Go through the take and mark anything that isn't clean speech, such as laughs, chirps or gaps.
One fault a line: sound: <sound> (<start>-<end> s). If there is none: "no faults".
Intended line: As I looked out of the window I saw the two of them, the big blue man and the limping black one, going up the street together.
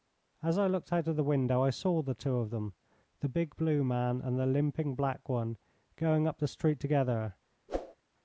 sound: whoosh (7.7-7.9 s)